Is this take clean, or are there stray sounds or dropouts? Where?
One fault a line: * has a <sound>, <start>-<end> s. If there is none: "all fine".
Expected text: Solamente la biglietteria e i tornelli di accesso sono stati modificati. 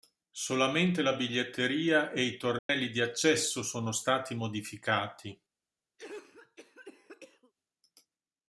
* has a dropout, 2.6-2.7 s
* has a cough, 6.0-7.5 s